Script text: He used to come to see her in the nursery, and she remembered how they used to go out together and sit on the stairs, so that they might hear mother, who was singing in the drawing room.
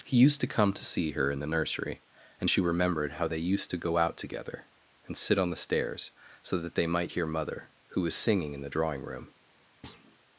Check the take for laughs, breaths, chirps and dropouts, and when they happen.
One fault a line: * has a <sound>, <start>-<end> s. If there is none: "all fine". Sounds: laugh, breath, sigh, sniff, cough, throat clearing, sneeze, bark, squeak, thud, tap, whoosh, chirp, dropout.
* has a thud, 9.8-10.2 s